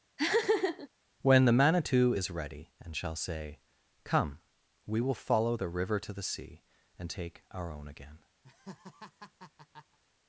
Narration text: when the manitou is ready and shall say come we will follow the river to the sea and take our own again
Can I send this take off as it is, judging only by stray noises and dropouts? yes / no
no